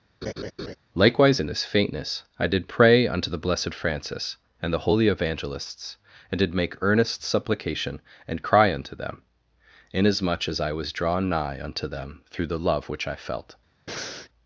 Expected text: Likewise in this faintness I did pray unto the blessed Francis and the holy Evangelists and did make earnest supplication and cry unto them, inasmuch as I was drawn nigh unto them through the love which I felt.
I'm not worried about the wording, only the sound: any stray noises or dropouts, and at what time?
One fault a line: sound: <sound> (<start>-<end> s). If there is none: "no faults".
sound: laugh (0.2-0.8 s)
sound: breath (13.9-14.3 s)